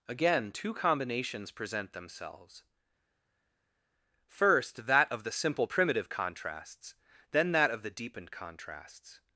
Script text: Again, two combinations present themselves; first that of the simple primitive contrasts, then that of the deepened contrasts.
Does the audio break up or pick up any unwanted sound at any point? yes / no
no